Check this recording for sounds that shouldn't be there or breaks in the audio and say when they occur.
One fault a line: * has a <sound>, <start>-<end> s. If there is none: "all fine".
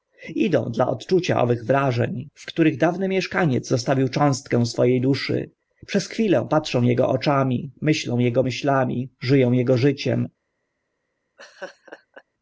* has a laugh, 11.4-12.2 s